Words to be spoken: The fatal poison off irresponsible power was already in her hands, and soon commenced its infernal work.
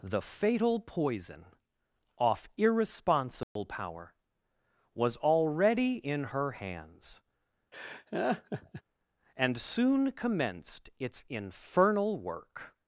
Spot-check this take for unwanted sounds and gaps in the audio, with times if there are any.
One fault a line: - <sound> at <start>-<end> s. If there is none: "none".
- dropout at 3.4-3.6 s
- laugh at 7.7-8.8 s